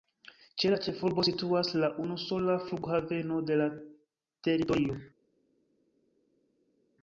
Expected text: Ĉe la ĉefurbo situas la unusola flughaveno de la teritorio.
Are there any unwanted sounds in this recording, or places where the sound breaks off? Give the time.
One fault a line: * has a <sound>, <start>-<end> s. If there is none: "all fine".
all fine